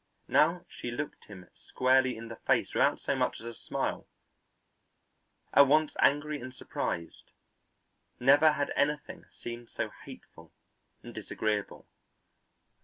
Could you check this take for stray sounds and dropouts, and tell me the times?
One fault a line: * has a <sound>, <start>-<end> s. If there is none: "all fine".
all fine